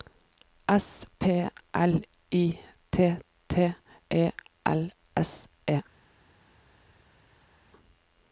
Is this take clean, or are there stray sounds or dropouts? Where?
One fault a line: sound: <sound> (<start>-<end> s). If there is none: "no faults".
no faults